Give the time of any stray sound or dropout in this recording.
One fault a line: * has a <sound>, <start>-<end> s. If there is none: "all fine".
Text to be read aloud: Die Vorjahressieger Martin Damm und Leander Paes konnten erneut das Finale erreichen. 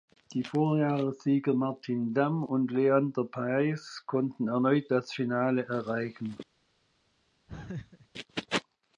* has a laugh, 7.5-8.1 s